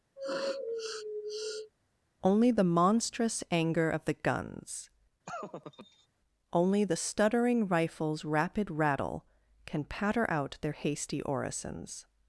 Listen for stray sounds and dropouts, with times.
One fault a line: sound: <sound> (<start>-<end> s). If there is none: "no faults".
sound: sniff (0.2-1.7 s)
sound: laugh (5.3-6.1 s)